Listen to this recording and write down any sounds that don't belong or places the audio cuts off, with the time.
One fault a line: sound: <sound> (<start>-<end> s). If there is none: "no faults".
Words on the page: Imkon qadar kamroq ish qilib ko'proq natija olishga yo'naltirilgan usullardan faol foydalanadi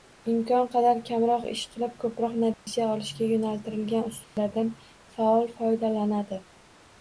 sound: dropout (2.5-2.7 s)
sound: dropout (4.2-4.4 s)